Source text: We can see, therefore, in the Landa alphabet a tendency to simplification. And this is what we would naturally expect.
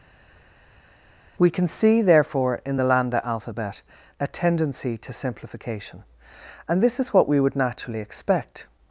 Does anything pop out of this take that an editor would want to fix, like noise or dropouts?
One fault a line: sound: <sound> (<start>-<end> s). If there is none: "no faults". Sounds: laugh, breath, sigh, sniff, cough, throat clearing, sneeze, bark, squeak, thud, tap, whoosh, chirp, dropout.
no faults